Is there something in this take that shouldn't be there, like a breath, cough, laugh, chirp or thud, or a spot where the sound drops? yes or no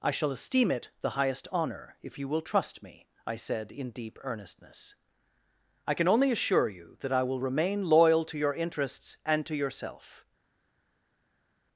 no